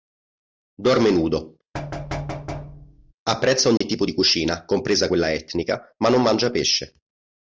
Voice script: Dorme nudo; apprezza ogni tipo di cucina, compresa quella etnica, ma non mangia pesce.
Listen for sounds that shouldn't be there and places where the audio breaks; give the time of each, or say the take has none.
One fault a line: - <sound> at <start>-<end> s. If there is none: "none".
- thud at 1.7-3.1 s
- dropout at 3.8-3.8 s